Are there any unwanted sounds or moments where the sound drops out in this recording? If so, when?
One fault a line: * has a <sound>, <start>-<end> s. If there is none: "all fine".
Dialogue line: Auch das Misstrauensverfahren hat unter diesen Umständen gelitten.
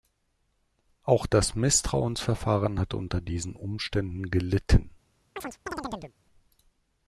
* has a chirp, 5.4-6.2 s